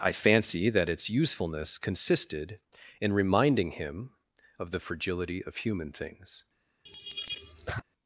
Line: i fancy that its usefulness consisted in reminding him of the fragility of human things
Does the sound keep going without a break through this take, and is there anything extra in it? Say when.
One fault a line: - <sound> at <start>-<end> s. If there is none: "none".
- laugh at 6.9-7.8 s